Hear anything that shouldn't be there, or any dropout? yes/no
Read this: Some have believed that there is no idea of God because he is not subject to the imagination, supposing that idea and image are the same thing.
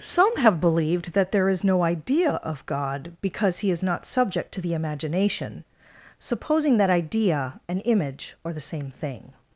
no